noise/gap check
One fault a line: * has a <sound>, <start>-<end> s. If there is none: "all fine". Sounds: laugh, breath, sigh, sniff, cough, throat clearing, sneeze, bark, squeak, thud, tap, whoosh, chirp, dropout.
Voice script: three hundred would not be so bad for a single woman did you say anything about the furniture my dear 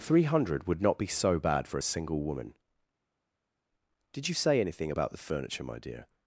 all fine